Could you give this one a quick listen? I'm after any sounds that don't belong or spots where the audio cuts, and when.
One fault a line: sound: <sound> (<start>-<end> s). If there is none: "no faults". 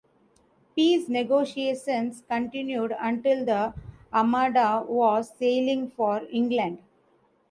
no faults